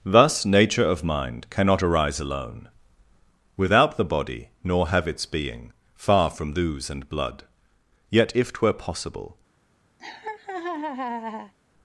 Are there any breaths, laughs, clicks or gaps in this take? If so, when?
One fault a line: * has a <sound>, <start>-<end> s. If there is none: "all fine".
* has a laugh, 10.0-11.5 s